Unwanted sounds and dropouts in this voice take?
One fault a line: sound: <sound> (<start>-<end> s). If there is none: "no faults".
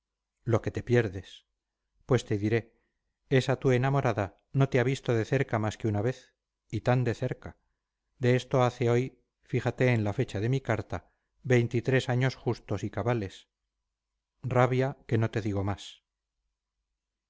no faults